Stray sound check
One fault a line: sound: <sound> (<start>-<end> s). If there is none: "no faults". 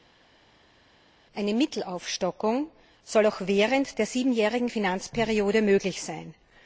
no faults